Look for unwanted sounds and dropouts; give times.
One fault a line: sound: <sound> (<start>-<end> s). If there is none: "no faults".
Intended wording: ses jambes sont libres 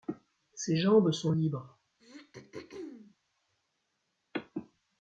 sound: throat clearing (2.0-3.2 s)